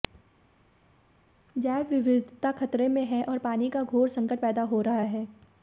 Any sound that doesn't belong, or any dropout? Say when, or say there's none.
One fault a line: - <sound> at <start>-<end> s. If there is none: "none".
none